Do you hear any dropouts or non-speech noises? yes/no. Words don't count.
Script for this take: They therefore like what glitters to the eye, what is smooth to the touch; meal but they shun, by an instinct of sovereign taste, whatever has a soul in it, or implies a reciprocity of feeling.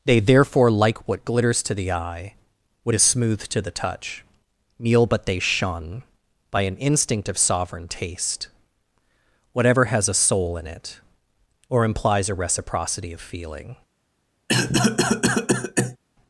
yes